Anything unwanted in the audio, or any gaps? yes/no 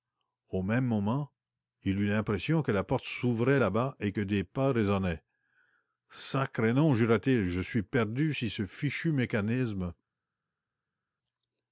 no